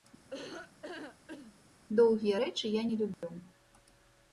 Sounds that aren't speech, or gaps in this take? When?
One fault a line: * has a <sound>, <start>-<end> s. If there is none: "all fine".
* has a laugh, 0.3-1.5 s
* has a dropout, 3.1-3.2 s